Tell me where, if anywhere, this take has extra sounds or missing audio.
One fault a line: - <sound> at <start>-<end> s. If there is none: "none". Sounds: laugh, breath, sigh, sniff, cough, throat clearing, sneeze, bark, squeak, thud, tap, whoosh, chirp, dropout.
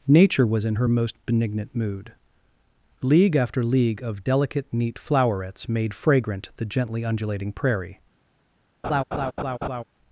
- laugh at 8.8-9.8 s